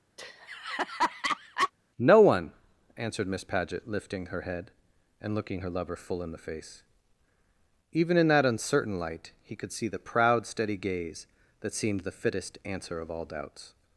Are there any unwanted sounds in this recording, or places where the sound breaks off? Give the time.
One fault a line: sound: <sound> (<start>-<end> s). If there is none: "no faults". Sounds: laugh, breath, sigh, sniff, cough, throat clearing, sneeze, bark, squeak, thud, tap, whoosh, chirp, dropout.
sound: laugh (0.2-1.7 s)